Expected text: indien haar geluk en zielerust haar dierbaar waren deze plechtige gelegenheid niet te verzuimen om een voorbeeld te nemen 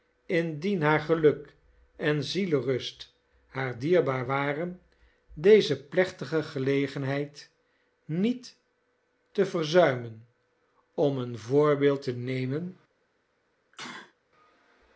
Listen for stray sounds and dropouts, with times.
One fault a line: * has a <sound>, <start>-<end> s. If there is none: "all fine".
* has a sneeze, 13.7-14.1 s